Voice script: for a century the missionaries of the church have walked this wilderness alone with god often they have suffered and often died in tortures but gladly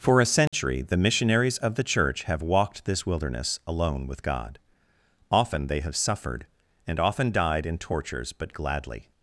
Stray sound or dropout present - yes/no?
yes